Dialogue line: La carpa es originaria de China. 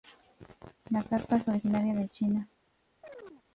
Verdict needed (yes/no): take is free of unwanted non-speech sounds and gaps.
no